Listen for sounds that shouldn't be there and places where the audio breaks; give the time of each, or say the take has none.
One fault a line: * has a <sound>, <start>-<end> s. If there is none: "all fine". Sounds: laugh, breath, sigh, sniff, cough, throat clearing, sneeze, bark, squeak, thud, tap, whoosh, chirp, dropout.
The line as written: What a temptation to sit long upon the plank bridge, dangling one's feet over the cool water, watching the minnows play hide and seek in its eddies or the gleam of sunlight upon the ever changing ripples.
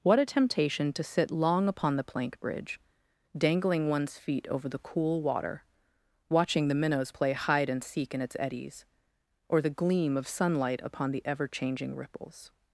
all fine